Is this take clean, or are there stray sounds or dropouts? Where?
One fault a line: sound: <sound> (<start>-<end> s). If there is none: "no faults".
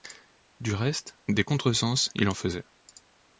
no faults